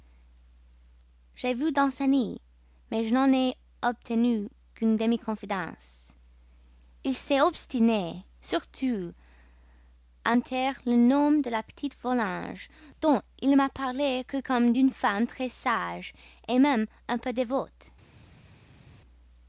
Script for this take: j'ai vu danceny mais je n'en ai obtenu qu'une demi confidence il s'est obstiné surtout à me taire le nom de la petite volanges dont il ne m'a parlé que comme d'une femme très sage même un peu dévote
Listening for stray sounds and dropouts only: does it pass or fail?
pass